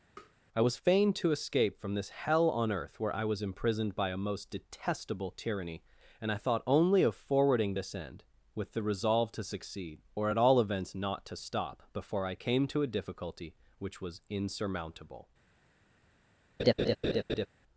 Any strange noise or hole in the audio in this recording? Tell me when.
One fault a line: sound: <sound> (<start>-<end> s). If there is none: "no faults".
sound: tap (0.2-0.3 s)
sound: laugh (16.6-17.5 s)